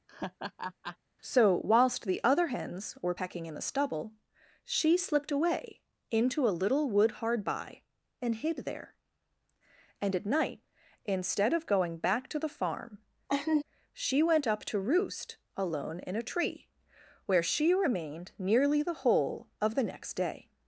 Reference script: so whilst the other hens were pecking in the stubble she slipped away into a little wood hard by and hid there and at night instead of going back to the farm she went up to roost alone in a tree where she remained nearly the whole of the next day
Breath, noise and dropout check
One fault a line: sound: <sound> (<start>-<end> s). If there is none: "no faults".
sound: laugh (0.1-1.0 s)
sound: laugh (13.3-13.6 s)